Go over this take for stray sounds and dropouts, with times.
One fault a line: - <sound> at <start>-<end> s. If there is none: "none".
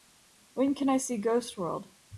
none